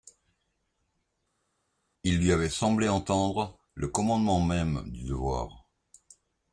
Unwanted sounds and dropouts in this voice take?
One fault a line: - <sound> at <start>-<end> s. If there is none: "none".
none